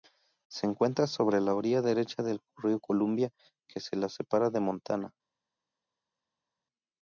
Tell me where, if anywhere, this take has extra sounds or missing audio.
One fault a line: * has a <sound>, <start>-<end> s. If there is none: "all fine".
all fine